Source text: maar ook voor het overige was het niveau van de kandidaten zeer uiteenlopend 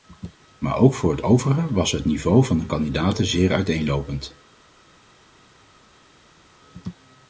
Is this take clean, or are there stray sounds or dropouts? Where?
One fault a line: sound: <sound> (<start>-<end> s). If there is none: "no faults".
no faults